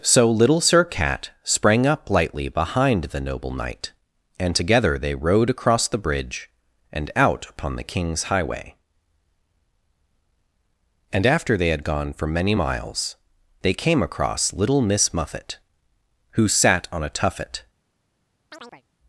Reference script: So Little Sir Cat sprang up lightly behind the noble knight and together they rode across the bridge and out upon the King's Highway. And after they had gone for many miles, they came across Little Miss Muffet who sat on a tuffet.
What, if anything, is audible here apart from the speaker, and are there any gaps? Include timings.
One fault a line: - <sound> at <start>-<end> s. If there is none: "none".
- chirp at 18.5-18.8 s